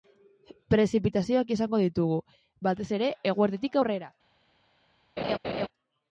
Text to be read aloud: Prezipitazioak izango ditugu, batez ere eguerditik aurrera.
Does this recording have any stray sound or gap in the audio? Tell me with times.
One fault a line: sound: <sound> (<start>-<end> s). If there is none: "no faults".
sound: laugh (5.2-5.7 s)